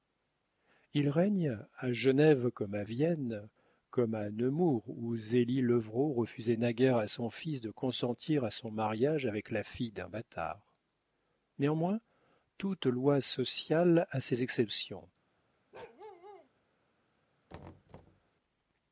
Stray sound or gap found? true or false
true